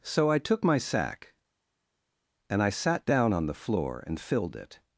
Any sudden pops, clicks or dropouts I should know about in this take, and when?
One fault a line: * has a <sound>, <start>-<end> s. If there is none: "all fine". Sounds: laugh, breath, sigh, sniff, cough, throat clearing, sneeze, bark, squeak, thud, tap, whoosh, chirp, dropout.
all fine